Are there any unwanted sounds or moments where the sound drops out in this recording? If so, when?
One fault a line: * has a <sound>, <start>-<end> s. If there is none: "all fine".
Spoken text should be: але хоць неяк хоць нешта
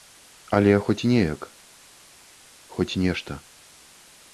all fine